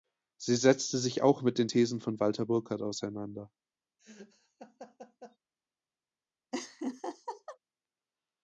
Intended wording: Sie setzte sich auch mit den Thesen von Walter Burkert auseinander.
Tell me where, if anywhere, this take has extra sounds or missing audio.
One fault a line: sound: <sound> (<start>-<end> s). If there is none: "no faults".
sound: laugh (4.0-5.4 s)
sound: laugh (6.5-7.6 s)